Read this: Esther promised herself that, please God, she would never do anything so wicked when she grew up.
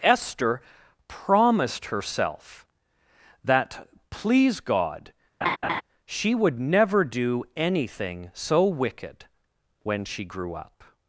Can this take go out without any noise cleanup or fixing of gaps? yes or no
no